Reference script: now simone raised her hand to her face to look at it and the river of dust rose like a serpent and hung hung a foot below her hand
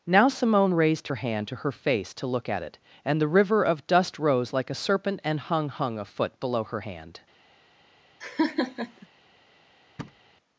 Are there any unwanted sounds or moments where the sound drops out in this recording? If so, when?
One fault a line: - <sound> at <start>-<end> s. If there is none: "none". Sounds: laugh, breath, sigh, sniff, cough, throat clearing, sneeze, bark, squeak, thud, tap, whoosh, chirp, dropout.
- laugh at 8.2-9.1 s
- thud at 10.0-10.2 s